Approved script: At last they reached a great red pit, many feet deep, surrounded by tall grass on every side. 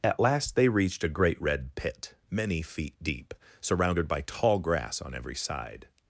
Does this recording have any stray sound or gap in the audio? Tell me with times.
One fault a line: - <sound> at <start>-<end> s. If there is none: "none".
none